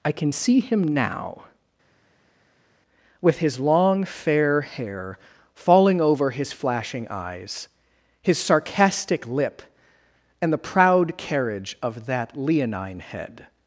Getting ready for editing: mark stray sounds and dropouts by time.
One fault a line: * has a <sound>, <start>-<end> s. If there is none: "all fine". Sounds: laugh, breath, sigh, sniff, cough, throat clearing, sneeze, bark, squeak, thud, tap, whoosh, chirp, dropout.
all fine